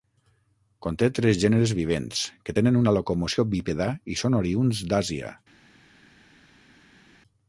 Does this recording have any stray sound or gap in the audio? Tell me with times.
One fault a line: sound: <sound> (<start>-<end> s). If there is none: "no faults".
no faults